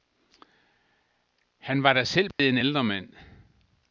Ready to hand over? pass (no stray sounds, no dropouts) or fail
fail